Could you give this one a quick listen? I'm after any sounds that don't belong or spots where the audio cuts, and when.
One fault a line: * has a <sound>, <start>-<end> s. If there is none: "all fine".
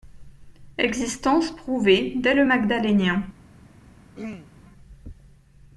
* has a throat clearing, 4.2-4.5 s